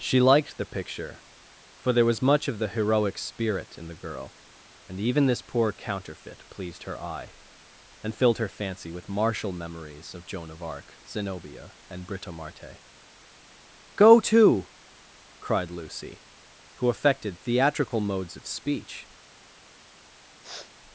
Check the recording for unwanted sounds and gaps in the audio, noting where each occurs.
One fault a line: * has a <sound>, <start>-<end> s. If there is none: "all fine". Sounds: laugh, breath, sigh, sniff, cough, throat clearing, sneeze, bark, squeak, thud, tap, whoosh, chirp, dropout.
* has a sniff, 20.4-20.7 s